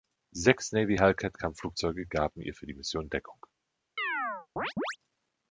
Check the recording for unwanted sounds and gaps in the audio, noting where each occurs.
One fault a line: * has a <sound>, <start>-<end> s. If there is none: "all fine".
* has a chirp, 4.0-5.0 s